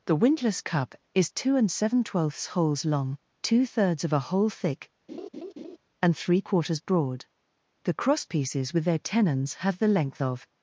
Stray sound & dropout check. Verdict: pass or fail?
fail